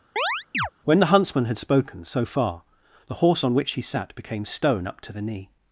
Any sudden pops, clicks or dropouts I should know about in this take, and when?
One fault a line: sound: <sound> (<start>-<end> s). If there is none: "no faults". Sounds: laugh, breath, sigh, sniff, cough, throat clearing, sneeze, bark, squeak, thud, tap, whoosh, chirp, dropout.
sound: chirp (0.2-0.7 s)